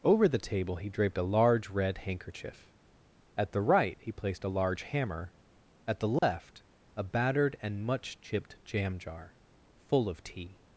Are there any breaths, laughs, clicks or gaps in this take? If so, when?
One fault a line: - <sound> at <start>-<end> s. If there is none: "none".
- dropout at 6.2-6.2 s